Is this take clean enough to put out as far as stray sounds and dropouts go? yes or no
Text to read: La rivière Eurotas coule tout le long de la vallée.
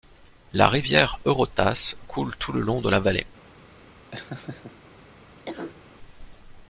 no